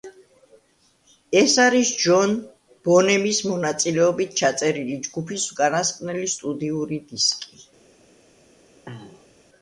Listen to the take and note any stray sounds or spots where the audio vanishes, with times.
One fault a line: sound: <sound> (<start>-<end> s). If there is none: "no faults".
sound: throat clearing (8.9-9.4 s)